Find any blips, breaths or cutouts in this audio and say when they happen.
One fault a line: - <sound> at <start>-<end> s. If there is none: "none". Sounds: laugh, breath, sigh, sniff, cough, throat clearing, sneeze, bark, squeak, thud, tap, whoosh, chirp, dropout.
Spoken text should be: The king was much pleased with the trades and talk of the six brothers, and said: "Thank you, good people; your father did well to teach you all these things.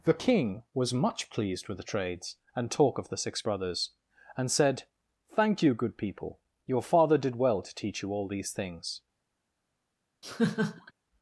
- laugh at 10.2-10.9 s